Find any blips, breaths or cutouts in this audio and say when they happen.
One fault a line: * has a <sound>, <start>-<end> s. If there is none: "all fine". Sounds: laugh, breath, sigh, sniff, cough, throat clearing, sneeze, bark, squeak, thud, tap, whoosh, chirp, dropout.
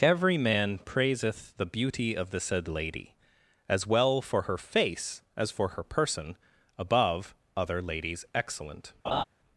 * has a laugh, 9.0-9.2 s